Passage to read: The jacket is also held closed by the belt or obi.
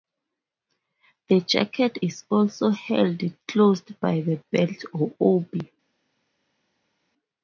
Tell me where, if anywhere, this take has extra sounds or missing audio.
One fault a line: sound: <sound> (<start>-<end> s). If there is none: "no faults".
no faults